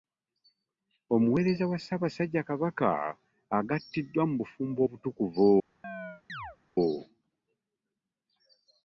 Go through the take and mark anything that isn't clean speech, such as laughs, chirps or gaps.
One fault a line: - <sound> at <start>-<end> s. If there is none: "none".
- chirp at 5.8-6.6 s